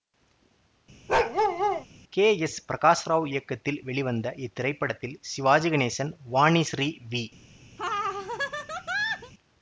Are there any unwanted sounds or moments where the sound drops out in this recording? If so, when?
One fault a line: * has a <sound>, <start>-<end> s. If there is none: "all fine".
* has a bark, 1.1-1.9 s
* has a laugh, 7.8-9.3 s